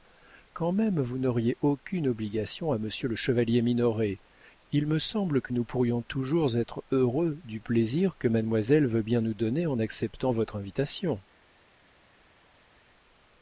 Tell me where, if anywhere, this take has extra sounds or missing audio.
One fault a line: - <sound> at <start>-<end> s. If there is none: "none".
none